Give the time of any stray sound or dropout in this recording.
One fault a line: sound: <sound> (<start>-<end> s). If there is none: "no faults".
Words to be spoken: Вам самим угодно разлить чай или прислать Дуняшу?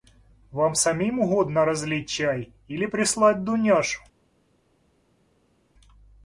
no faults